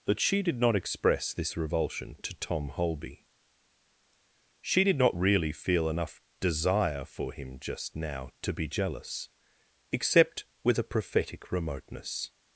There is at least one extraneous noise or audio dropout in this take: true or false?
false